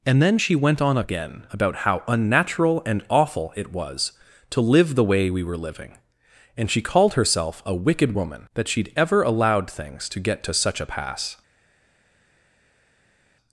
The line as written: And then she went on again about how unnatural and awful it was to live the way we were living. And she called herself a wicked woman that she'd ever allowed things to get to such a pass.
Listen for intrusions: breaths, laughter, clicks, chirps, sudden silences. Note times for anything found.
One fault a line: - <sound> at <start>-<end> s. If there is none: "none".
none